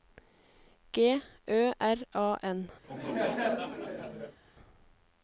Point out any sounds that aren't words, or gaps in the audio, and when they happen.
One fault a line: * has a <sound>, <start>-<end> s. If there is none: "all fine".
* has a laugh, 2.8-4.4 s